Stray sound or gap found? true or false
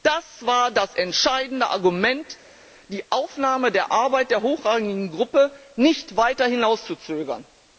false